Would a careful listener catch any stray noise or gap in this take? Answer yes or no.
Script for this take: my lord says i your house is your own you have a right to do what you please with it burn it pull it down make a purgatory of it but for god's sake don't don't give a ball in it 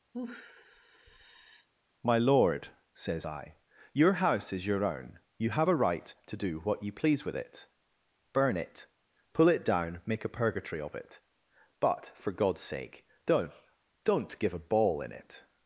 yes